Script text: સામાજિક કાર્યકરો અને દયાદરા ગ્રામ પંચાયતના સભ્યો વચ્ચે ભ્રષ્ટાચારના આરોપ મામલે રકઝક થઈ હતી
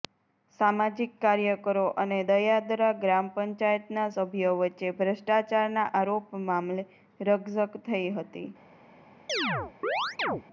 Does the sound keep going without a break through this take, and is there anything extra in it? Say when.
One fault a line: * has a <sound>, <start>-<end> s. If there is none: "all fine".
* has a chirp, 9.3-10.4 s